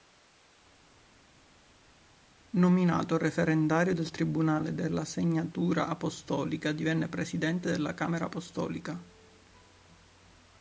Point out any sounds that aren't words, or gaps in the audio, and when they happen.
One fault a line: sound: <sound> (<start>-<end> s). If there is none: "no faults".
no faults